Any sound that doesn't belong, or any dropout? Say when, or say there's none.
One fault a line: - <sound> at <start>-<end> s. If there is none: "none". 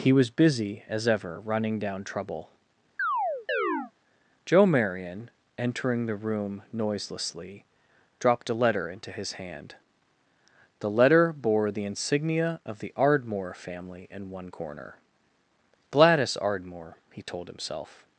- chirp at 3.0-3.9 s